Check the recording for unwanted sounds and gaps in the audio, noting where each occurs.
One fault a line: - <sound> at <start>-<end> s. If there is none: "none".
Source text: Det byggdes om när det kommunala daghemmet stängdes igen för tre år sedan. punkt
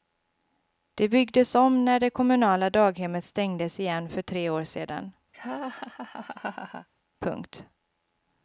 - laugh at 5.3-6.9 s